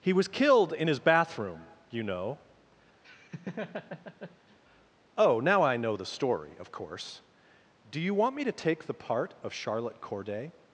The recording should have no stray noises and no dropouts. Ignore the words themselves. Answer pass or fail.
fail